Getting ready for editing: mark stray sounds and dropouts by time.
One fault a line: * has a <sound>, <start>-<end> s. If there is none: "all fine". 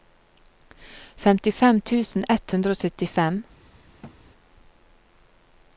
* has a thud, 4.0-4.2 s